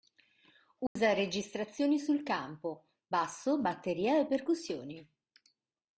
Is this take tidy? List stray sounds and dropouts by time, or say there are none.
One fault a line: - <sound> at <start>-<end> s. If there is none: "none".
- dropout at 0.9-1.0 s